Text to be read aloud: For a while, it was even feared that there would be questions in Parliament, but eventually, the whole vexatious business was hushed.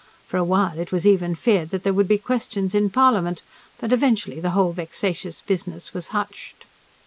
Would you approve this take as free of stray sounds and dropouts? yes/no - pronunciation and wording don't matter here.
yes